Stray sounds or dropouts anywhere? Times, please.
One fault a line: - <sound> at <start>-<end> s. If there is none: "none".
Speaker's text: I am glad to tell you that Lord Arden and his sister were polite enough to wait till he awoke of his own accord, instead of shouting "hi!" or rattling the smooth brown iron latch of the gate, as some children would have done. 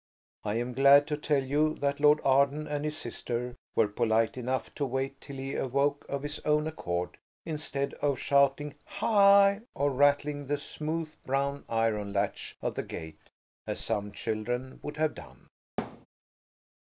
- thud at 15.8-16.1 s